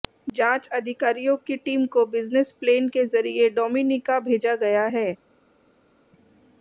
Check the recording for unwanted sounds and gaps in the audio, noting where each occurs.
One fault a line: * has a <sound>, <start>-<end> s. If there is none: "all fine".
all fine